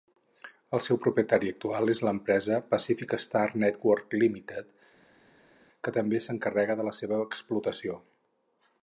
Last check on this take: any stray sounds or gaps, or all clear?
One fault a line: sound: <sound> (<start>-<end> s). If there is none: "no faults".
no faults